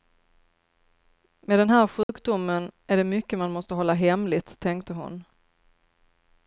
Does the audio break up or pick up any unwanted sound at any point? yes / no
yes